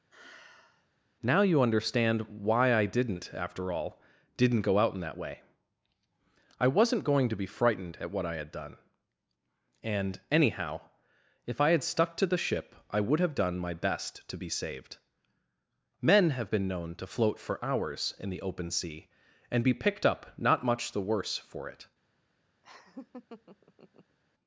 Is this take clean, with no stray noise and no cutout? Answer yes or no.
no